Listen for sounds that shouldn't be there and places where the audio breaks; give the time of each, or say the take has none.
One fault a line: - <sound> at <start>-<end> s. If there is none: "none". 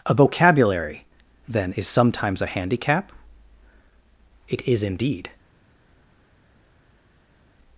none